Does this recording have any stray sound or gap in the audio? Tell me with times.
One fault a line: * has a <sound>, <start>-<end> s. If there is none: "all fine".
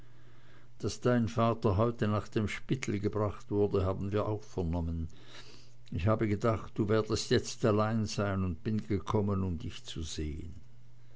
all fine